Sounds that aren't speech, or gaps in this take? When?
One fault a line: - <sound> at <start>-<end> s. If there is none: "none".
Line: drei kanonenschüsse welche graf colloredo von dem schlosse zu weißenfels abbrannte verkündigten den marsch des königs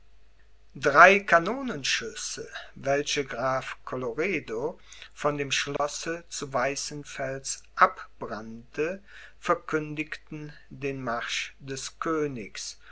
- dropout at 5.8-5.8 s